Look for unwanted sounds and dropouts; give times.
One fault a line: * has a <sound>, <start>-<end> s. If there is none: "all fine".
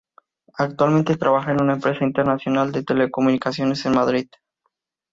all fine